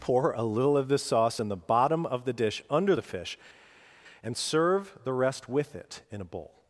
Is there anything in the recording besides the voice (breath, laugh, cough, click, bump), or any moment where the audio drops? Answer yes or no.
no